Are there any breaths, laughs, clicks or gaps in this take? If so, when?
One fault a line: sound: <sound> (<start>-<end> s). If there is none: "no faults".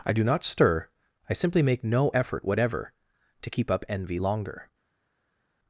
no faults